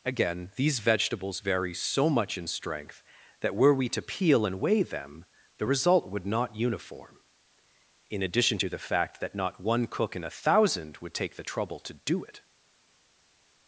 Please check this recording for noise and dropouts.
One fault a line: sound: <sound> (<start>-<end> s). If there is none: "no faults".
no faults